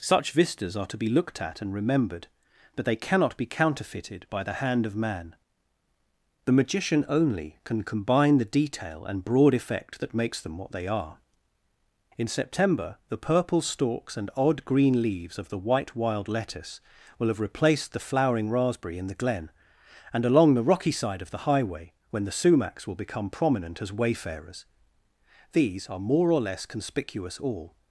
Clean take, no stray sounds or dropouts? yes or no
yes